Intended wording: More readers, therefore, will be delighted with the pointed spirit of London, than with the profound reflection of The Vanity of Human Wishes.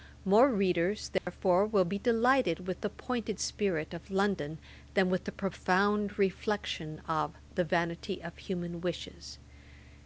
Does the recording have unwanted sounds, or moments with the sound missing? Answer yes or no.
yes